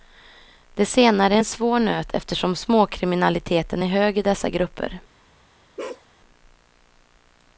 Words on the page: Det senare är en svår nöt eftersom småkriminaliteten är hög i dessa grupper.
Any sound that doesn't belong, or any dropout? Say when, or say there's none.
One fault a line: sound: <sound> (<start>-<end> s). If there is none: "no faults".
sound: bark (5.8-6.1 s)